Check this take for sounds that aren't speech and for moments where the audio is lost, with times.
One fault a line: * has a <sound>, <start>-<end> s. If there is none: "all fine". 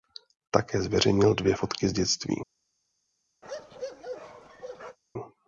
* has a bark, 3.4-5.0 s